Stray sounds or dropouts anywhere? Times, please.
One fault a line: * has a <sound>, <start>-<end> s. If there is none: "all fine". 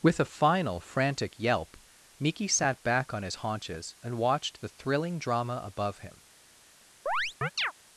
* has a chirp, 7.1-7.7 s